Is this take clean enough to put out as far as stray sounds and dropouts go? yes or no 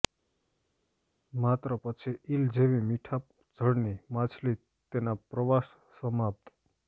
yes